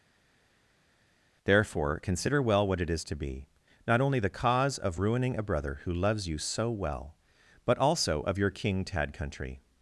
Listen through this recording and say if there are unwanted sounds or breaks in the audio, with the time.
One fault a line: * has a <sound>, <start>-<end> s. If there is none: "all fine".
all fine